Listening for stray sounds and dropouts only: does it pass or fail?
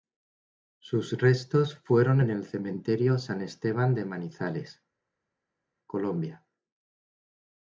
pass